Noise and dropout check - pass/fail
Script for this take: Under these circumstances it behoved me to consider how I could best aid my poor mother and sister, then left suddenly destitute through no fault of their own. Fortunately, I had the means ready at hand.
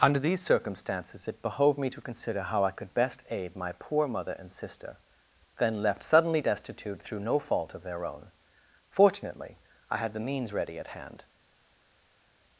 pass